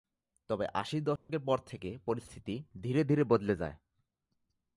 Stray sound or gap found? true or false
true